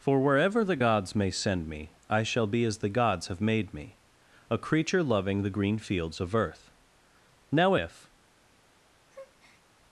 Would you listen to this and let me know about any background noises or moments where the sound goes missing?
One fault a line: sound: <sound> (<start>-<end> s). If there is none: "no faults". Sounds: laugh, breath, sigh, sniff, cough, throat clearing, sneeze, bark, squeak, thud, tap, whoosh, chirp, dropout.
sound: breath (9.1-9.6 s)